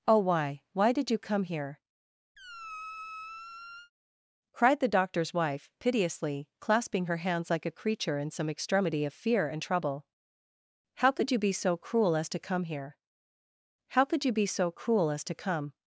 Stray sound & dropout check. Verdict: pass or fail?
fail